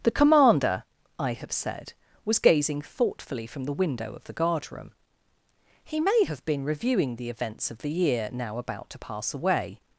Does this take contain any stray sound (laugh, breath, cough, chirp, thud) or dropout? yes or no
no